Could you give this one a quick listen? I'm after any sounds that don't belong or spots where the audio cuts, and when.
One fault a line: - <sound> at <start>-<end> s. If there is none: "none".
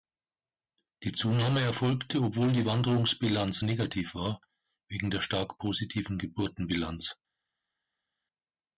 none